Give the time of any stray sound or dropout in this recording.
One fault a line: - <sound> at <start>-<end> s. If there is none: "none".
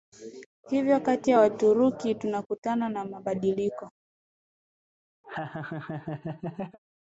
- laugh at 5.2-6.8 s